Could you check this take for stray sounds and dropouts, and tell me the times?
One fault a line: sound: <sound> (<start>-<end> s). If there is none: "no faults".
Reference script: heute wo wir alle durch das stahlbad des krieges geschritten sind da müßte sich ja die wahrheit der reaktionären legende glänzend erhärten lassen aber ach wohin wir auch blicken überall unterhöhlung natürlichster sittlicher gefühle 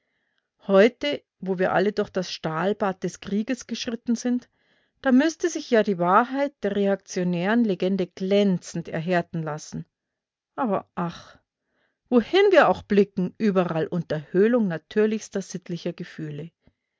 no faults